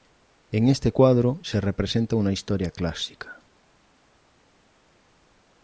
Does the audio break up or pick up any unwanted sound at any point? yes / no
no